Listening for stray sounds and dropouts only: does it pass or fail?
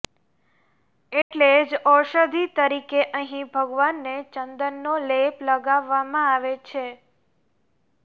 fail